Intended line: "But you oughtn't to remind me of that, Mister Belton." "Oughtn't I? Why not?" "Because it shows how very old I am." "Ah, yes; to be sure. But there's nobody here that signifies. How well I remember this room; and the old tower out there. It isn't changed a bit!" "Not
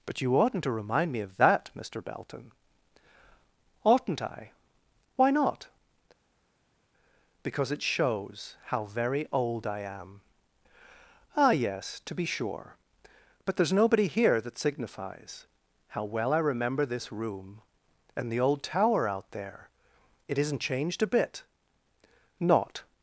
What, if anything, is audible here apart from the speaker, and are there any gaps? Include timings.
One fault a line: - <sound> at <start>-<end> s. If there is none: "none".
none